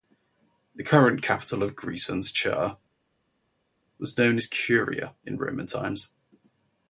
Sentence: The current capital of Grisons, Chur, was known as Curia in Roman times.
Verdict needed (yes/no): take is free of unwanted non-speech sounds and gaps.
yes